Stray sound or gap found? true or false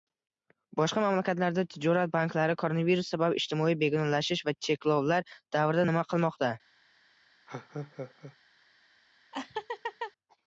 true